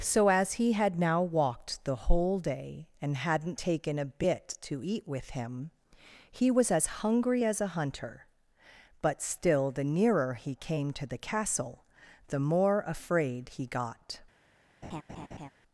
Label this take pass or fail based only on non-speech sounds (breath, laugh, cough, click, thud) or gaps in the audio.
fail